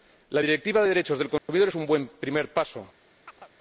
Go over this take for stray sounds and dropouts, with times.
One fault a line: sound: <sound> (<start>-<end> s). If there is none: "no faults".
sound: dropout (1.4-1.5 s)
sound: chirp (3.3-3.5 s)